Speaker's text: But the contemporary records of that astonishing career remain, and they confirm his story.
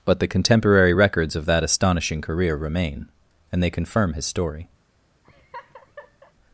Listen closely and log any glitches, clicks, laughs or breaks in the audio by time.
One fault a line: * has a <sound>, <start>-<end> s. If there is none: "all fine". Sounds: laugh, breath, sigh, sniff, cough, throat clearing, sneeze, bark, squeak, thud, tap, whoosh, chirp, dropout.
* has a laugh, 5.2-6.3 s